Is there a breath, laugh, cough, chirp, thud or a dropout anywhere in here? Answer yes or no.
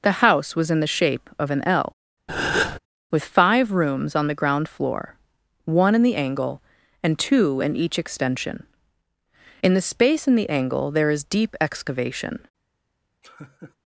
yes